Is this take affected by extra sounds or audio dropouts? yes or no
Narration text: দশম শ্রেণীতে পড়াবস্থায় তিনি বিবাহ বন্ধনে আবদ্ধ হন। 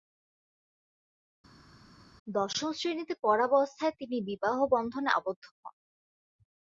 no